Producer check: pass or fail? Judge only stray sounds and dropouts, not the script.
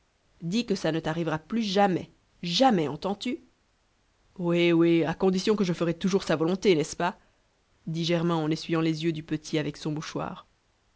pass